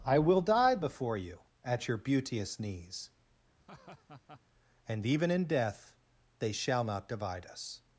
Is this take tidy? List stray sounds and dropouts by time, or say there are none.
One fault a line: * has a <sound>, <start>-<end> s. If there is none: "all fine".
* has a laugh, 3.6-4.4 s